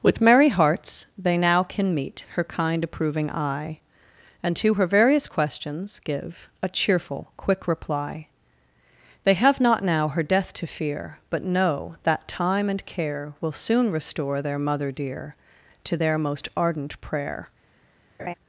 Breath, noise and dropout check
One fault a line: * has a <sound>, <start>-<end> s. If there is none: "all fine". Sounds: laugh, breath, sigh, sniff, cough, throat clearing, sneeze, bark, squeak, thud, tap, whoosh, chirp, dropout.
* has a laugh, 18.2-18.3 s